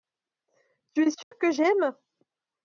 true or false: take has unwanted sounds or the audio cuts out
true